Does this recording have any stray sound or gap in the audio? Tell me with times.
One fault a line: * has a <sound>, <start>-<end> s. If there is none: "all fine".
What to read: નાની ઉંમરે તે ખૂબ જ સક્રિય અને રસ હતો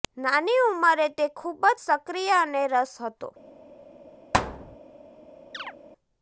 * has a thud, 4.3-4.8 s
* has a chirp, 5.5-5.8 s